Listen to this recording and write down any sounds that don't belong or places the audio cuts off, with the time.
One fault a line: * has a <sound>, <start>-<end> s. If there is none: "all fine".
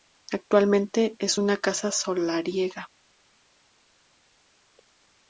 all fine